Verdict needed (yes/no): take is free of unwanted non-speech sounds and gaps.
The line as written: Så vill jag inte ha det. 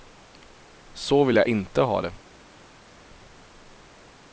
yes